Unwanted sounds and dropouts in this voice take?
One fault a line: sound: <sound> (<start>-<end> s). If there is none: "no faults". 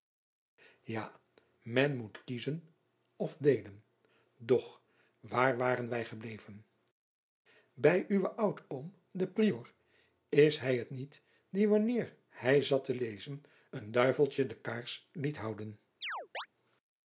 sound: chirp (16.0-16.5 s)